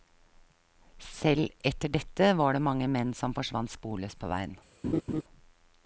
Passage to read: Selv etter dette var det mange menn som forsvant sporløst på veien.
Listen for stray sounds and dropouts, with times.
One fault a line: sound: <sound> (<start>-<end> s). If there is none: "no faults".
sound: laugh (4.8-5.2 s)